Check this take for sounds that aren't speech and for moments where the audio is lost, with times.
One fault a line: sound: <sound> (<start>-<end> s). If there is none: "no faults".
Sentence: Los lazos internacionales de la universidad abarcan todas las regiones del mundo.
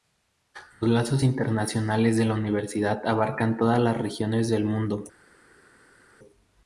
no faults